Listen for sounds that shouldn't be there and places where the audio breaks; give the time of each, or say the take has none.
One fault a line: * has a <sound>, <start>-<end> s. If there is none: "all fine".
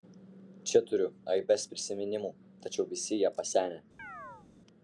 * has a chirp, 4.0-4.5 s